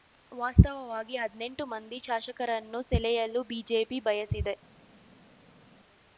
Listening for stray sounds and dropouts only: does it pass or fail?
pass